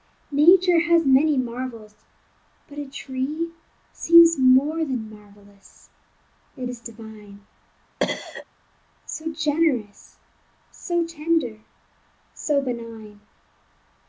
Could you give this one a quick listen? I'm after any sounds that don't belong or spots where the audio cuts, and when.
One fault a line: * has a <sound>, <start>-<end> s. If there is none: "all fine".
* has a cough, 8.0-8.5 s